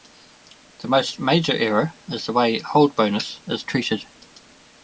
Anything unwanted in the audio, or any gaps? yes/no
no